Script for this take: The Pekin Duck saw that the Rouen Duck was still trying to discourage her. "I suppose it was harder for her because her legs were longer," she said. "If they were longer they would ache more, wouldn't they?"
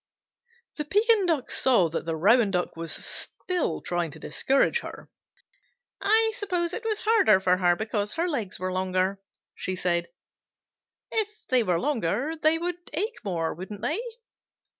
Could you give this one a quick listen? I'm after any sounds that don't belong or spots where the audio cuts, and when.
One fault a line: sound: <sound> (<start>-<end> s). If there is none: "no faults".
no faults